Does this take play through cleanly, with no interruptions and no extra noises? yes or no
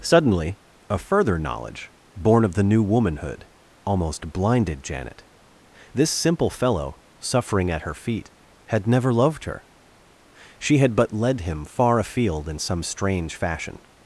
yes